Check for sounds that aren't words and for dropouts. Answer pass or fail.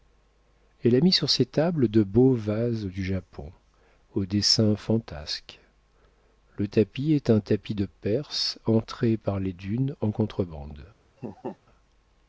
fail